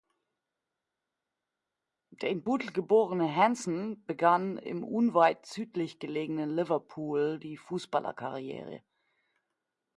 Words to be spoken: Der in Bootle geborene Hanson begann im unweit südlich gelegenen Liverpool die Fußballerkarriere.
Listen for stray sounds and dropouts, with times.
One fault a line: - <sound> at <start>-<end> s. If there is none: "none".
none